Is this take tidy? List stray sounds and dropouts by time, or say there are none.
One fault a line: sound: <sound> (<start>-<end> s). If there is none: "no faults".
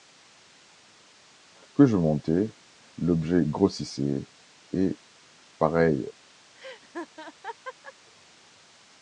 sound: laugh (6.5-7.9 s)